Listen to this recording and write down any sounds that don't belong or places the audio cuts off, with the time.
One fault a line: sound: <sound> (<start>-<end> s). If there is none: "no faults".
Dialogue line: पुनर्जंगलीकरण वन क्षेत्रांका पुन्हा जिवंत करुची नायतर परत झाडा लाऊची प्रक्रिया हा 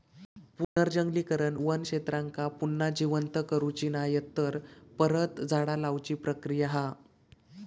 sound: dropout (0.6-0.8 s)